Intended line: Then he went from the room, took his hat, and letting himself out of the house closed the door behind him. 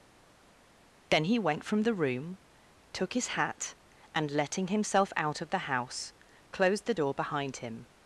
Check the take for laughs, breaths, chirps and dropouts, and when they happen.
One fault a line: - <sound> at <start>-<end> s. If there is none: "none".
none